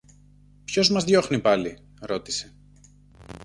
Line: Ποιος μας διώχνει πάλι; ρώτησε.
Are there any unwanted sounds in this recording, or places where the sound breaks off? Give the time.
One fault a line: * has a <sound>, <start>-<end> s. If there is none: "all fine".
all fine